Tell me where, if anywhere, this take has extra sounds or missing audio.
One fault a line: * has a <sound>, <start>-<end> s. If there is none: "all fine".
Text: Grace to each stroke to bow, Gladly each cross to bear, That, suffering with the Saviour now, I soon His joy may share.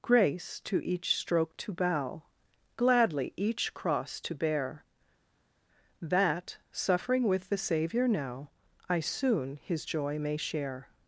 all fine